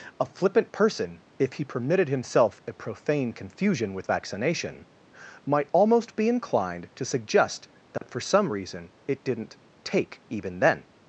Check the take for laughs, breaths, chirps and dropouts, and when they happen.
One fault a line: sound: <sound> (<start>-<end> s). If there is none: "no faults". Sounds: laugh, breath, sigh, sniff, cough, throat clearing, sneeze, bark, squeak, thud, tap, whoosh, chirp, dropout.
sound: dropout (8.0-8.0 s)